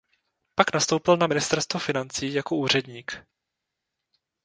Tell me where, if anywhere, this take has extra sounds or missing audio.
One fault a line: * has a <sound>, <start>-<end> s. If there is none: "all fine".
all fine